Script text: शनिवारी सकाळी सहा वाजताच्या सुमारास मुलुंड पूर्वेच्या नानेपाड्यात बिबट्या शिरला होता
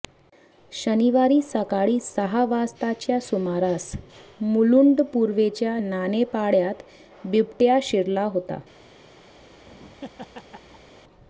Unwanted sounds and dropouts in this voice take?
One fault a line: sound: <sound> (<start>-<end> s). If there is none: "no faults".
sound: laugh (9.4-10.9 s)